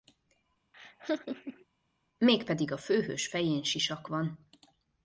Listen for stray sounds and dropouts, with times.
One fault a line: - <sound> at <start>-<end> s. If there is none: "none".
- laugh at 0.7-1.6 s